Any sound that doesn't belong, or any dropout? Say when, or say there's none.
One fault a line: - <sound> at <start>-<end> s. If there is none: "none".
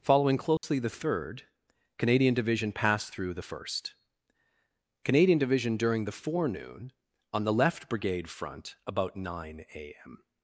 - dropout at 0.6-0.6 s